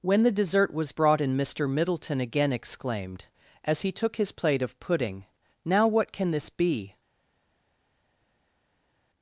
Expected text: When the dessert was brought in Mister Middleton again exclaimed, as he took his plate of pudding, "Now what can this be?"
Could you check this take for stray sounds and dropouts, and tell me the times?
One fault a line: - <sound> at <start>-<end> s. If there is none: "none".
none